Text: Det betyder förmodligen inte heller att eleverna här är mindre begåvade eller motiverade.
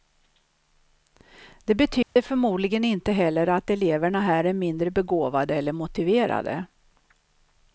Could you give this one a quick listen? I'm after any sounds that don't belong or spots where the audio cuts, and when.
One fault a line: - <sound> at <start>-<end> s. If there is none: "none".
- dropout at 2.0-2.2 s